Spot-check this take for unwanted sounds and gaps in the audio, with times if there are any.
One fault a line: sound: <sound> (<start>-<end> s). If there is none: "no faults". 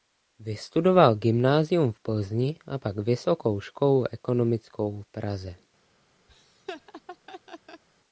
sound: laugh (6.3-7.8 s)